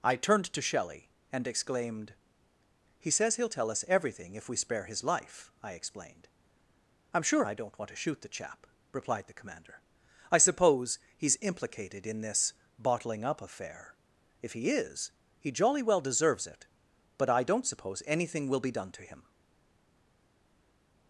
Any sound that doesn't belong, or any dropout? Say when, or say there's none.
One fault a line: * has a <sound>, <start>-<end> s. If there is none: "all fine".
all fine